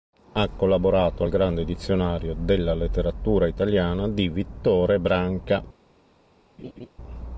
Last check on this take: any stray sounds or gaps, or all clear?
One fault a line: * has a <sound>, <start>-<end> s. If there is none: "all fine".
* has a laugh, 6.6-6.9 s